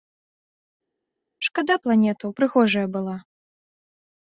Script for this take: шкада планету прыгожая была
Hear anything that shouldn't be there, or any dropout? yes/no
no